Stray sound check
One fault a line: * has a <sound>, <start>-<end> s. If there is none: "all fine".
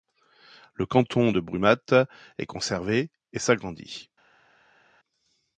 all fine